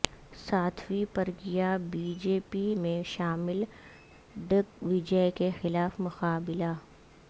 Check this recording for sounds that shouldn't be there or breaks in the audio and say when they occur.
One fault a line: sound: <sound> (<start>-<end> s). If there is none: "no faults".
no faults